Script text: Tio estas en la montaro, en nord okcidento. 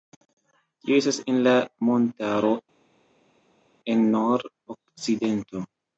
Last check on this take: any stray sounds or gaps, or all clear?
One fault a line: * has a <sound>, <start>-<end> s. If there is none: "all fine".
all fine